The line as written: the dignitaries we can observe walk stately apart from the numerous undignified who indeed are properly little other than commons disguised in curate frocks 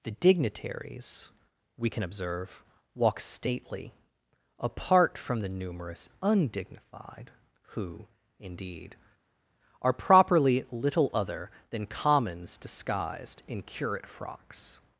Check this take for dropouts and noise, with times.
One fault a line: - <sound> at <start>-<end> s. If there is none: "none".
none